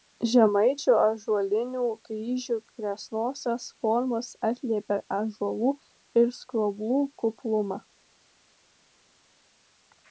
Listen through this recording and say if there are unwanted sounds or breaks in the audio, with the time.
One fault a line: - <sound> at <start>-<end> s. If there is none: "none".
none